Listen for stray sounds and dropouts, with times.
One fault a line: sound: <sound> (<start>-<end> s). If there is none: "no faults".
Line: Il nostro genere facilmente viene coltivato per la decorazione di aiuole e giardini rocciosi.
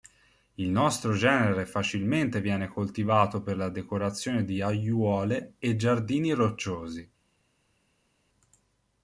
no faults